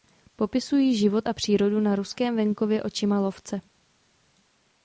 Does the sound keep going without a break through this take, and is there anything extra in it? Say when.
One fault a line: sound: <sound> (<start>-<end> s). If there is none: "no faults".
no faults